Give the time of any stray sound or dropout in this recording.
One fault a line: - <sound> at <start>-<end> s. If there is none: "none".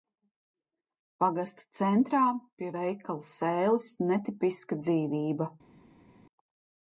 none